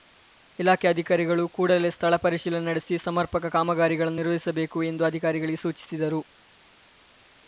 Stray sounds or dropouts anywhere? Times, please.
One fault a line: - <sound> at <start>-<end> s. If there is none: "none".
none